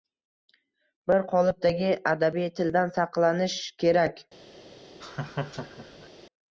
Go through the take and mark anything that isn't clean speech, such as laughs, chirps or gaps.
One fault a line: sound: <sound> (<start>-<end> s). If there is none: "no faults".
sound: laugh (5.0-6.1 s)